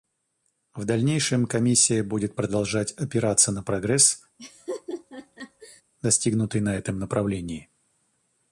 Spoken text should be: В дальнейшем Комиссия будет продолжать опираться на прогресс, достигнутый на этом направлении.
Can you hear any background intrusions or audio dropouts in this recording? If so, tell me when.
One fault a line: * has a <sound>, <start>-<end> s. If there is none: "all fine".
* has a laugh, 4.4-5.8 s